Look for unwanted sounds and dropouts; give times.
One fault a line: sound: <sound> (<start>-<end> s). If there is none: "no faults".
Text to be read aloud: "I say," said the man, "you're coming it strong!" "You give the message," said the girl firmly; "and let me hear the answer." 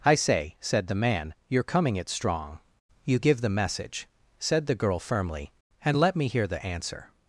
no faults